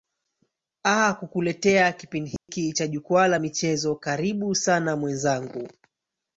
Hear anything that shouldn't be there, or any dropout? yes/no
yes